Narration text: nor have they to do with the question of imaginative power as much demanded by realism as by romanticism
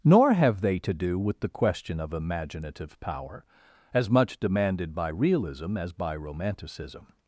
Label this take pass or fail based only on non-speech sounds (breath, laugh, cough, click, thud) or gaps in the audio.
pass